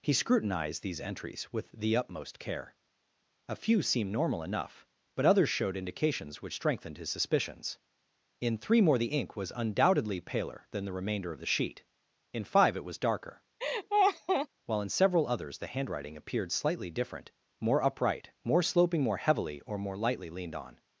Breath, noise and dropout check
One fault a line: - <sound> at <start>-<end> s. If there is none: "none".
- laugh at 13.6-14.5 s